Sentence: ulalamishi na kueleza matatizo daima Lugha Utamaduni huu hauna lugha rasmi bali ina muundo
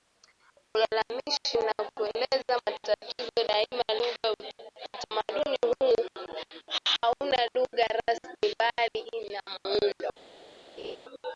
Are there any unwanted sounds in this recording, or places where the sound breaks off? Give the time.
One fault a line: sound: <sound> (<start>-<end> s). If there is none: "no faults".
sound: laugh (10.8-11.0 s)